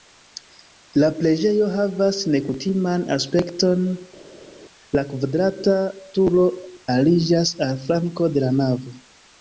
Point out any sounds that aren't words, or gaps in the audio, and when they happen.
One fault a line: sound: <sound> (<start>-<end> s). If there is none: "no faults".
no faults